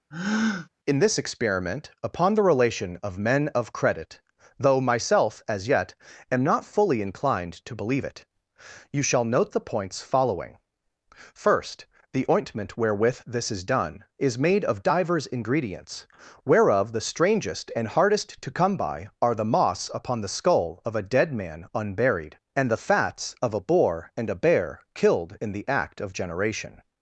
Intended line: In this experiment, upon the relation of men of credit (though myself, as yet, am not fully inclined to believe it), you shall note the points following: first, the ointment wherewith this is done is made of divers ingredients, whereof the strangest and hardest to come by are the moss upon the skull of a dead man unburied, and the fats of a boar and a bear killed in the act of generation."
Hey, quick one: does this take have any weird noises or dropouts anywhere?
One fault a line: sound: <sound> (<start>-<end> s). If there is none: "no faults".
sound: breath (0.1-0.7 s)